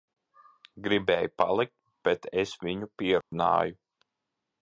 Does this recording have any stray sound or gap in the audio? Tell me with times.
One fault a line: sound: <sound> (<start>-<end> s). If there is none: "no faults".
sound: dropout (3.2-3.3 s)